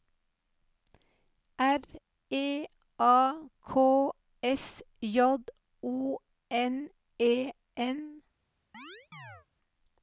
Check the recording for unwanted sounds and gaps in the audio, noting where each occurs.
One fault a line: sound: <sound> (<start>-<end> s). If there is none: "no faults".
sound: chirp (8.7-9.5 s)